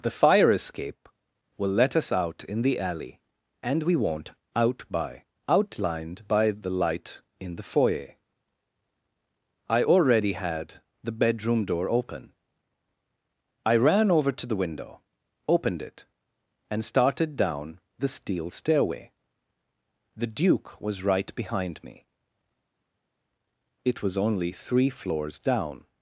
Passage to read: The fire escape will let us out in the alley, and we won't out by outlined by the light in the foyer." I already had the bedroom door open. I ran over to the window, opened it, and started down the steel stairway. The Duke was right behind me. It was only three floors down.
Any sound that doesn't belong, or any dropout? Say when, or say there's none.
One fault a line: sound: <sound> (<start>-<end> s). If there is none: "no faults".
no faults